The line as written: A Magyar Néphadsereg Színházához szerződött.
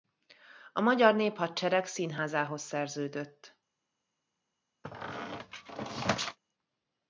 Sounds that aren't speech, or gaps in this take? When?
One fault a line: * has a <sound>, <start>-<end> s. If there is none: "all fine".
* has a squeak, 4.8-6.4 s